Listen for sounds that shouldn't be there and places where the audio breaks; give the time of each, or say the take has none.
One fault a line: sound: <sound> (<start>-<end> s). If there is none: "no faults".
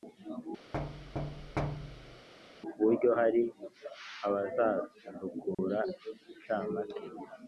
sound: thud (0.7-2.3 s)
sound: dropout (5.5-5.6 s)